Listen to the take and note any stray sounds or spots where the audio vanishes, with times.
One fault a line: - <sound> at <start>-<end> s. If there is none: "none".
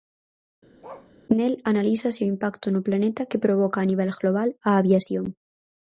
- bark at 0.8-1.1 s